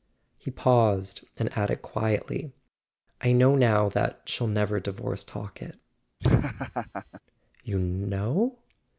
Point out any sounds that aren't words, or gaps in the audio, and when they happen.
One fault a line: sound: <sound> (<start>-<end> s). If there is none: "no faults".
sound: laugh (6.2-7.2 s)